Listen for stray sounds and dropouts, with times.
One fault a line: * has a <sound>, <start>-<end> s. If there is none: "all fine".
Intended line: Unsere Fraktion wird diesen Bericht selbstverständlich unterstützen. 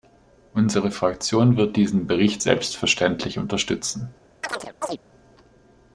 * has a chirp, 4.4-5.0 s